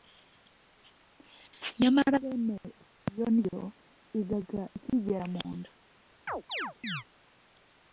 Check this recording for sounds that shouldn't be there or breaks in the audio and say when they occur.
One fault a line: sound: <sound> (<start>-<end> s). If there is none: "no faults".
sound: chirp (6.3-7.0 s)